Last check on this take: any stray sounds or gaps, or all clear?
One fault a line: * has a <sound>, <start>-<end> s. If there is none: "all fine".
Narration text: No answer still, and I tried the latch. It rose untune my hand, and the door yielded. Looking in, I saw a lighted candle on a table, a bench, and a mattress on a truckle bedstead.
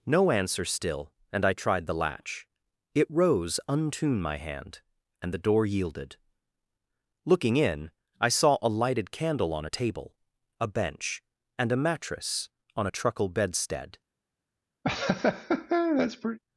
* has a laugh, 14.8-16.4 s